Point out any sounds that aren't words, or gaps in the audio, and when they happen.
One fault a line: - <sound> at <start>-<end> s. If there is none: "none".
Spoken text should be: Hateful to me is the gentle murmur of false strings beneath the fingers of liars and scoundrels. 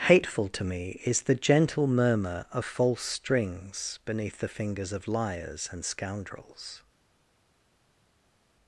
none